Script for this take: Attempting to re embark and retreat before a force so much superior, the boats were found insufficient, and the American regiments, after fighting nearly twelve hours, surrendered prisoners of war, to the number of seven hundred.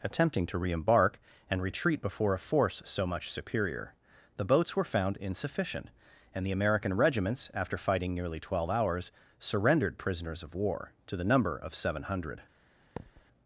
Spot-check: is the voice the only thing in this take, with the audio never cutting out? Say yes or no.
no